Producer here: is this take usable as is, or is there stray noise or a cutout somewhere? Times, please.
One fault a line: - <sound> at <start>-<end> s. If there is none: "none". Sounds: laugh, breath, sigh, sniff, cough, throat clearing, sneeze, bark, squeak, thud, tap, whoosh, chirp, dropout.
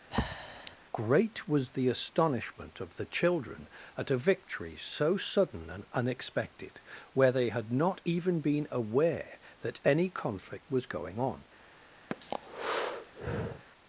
- breath at 0.1-0.8 s
- breath at 12.1-13.6 s